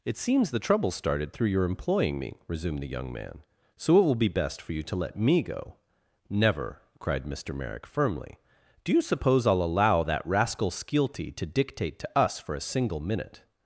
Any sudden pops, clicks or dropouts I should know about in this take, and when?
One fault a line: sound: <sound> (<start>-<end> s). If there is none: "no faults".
no faults